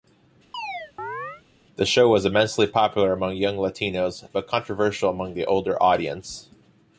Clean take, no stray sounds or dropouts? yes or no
no